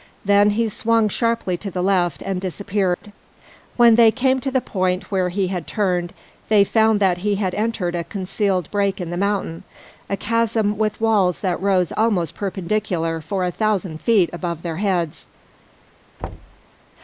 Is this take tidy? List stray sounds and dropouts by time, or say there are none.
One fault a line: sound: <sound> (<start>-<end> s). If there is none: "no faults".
sound: dropout (2.9-3.0 s)
sound: thud (16.2-16.6 s)